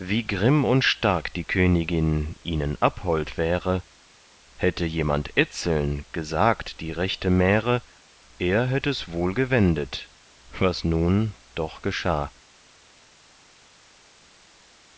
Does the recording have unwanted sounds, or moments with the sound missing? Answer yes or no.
no